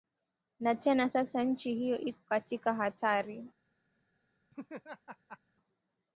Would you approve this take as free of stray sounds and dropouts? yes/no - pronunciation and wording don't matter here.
no